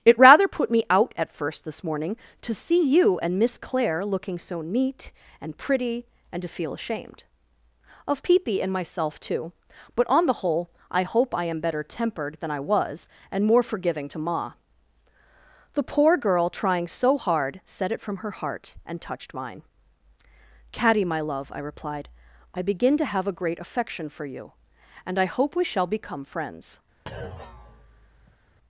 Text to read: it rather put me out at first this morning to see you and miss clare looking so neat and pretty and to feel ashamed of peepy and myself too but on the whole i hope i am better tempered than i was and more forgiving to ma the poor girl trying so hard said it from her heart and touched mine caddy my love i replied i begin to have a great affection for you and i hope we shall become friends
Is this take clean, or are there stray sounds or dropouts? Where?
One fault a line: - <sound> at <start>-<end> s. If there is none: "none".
- thud at 27.1-28.4 s